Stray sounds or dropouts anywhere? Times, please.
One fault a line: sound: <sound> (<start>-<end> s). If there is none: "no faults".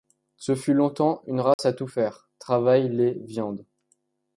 sound: dropout (1.5-1.6 s)